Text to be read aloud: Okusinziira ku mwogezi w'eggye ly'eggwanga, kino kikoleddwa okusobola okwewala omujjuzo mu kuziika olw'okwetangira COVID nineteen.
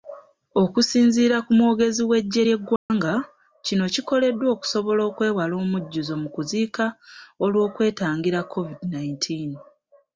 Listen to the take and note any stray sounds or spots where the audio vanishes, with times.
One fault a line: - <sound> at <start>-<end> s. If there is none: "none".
- dropout at 2.8-2.9 s